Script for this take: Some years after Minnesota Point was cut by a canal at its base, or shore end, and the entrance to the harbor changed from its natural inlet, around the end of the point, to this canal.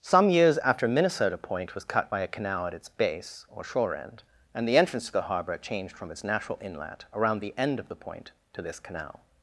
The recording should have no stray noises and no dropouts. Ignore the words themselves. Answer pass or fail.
pass